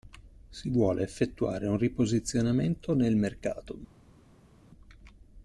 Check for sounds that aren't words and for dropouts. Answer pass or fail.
pass